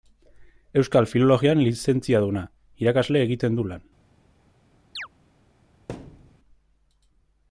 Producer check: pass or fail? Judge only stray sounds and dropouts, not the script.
fail